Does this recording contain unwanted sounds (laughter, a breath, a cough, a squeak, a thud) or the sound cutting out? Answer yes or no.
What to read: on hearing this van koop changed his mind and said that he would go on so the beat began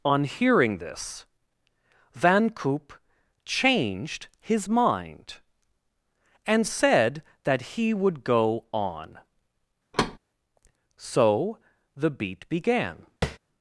yes